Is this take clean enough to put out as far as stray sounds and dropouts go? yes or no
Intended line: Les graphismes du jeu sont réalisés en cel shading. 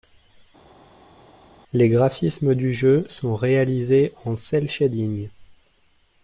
yes